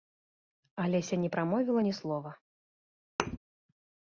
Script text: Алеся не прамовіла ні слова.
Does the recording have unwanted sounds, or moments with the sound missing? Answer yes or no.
yes